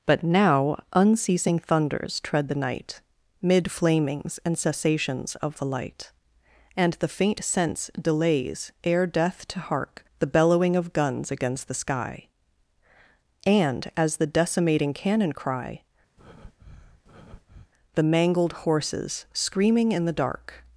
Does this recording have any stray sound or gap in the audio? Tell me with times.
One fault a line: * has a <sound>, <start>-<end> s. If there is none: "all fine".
* has a breath, 16.2-17.7 s